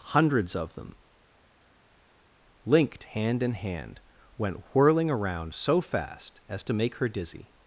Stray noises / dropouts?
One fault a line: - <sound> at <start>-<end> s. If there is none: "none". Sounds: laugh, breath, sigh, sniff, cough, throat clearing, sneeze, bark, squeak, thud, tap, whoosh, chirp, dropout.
none